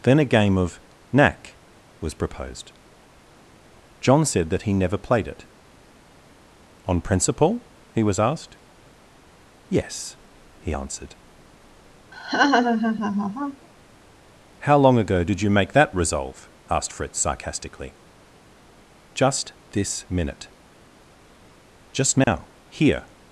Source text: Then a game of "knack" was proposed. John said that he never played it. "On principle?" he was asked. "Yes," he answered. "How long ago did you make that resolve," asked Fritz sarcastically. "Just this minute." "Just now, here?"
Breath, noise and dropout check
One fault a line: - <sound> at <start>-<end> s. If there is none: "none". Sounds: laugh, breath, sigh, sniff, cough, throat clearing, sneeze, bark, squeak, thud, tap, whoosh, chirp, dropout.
- laugh at 12.1-13.7 s
- dropout at 22.2-22.3 s